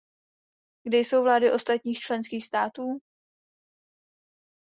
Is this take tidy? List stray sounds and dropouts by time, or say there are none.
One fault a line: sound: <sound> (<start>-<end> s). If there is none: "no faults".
no faults